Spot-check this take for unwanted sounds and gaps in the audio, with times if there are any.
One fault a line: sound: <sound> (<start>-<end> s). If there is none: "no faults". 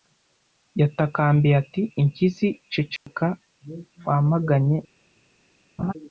sound: dropout (3.0-3.1 s)
sound: laugh (5.8-5.9 s)